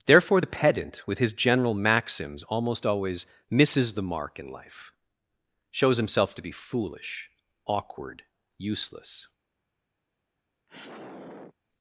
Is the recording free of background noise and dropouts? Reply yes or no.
no